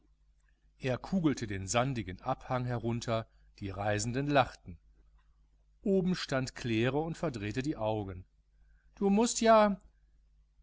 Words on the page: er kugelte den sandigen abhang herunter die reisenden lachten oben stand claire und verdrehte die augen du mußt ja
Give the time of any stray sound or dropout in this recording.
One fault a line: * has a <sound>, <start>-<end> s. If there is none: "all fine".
all fine